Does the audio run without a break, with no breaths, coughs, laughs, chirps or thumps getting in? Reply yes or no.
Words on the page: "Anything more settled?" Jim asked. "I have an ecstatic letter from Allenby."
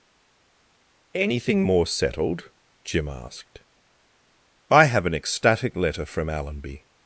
yes